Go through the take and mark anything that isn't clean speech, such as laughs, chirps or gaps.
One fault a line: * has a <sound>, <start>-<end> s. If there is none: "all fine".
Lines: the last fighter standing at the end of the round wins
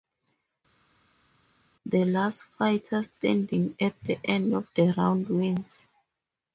all fine